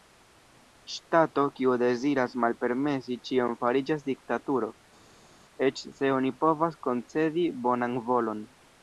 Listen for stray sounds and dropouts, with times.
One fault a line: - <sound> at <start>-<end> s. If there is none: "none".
none